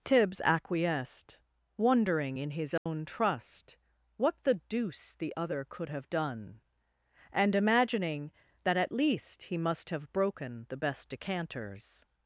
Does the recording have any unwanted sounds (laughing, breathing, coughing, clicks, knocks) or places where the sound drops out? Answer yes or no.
yes